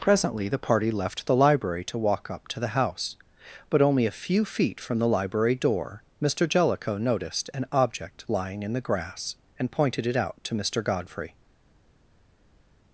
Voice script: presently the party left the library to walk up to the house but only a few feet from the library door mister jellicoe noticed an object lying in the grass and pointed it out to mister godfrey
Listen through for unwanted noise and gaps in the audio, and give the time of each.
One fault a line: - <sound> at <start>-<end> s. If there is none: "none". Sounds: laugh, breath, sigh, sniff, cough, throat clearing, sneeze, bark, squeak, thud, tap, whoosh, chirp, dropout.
none